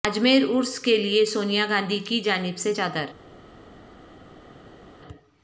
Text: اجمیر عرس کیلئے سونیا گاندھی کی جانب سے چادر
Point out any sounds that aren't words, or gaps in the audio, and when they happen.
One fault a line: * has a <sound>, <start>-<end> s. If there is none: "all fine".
all fine